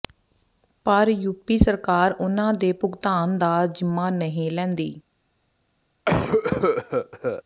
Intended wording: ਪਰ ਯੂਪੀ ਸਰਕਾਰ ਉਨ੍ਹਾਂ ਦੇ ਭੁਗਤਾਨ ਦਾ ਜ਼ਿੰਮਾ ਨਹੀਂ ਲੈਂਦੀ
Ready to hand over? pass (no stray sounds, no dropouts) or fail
fail